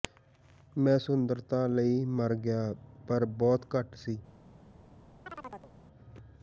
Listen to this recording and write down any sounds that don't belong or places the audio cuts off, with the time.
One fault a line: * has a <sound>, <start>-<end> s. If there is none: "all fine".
* has a chirp, 5.3-5.7 s